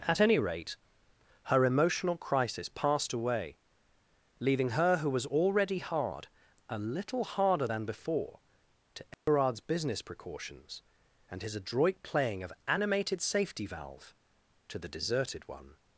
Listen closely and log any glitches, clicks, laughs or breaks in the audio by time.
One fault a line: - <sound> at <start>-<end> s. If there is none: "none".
- dropout at 9.1-9.3 s